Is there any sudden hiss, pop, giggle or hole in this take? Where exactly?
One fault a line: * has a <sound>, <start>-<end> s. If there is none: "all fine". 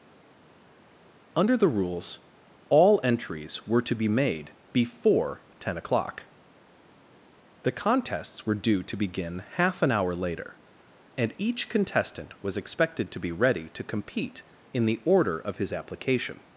all fine